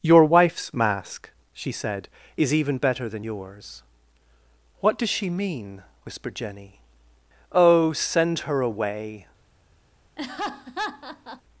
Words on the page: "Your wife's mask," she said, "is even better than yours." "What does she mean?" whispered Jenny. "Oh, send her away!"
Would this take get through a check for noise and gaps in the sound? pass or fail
fail